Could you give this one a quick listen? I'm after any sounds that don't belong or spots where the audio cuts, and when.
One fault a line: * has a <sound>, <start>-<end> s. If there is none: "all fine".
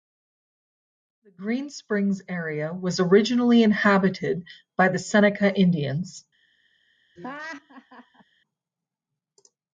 * has a laugh, 7.2-8.2 s